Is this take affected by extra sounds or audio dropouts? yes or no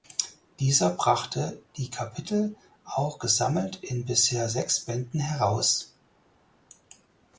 no